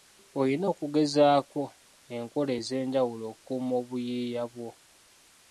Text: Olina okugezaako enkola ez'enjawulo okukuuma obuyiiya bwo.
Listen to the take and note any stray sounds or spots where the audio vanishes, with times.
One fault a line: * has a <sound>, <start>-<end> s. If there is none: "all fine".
all fine